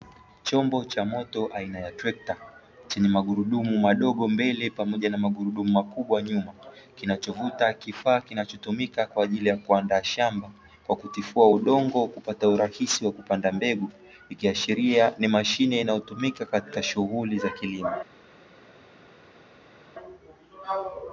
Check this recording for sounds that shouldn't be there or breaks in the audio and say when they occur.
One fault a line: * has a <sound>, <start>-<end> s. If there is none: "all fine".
all fine